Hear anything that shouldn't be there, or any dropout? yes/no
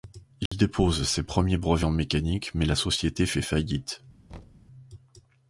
yes